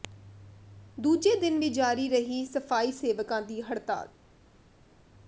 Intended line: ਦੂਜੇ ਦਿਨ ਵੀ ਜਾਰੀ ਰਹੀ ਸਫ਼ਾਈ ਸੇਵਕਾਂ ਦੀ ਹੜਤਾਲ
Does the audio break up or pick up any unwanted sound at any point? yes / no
no